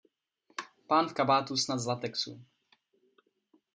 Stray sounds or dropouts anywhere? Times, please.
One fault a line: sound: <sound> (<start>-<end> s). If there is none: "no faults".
no faults